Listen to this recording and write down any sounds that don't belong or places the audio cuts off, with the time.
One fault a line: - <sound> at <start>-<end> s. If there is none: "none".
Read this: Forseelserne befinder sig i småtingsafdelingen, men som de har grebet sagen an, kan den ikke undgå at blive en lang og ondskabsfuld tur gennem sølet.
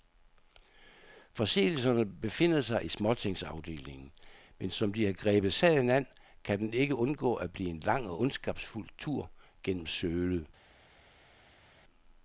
none